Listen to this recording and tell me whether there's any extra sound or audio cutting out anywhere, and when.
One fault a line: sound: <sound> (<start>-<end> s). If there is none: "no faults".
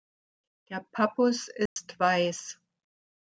sound: dropout (1.7-1.8 s)